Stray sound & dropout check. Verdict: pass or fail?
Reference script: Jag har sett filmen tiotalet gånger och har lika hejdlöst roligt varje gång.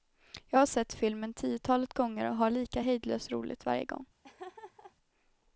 fail